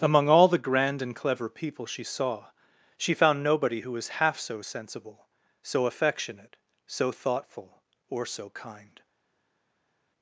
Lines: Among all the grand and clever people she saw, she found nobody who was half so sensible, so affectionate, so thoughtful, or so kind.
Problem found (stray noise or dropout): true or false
false